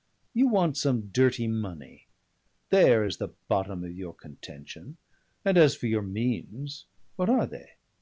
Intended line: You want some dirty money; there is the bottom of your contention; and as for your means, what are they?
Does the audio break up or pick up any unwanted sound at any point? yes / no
no